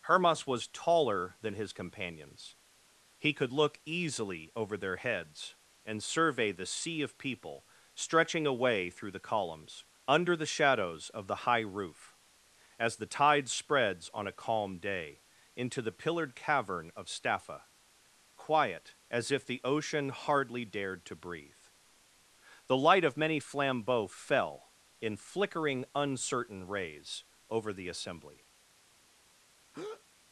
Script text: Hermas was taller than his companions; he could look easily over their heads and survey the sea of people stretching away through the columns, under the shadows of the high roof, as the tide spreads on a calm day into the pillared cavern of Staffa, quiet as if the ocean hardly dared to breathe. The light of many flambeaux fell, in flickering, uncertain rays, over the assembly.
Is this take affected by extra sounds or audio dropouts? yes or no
yes